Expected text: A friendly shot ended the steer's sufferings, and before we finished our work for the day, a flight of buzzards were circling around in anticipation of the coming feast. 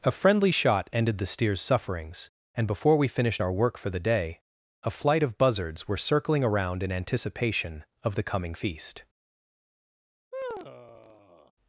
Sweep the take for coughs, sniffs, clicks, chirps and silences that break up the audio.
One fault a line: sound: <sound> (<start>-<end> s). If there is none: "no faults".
sound: sigh (10.3-11.5 s)